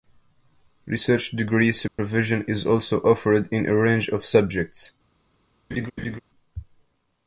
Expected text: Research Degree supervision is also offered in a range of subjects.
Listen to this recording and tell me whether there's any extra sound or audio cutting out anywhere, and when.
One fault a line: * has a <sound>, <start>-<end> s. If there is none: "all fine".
* has a dropout, 1.9-2.0 s
* has a laugh, 5.7-6.2 s